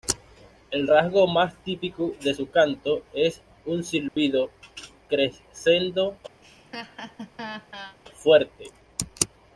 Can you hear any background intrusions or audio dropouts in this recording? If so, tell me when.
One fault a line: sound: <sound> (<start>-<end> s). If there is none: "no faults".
sound: dropout (4.1-4.2 s)
sound: laugh (6.4-8.0 s)